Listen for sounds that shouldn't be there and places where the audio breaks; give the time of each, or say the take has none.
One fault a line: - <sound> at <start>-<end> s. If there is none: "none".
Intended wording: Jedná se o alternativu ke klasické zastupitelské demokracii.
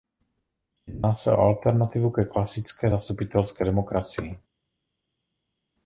none